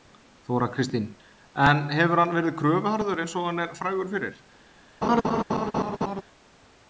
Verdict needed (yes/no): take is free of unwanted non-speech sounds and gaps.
no